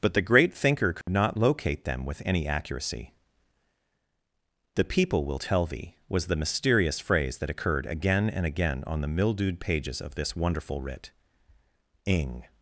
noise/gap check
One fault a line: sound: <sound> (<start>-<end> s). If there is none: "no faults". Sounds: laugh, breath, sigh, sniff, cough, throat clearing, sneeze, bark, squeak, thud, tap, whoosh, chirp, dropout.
sound: dropout (1.0-1.1 s)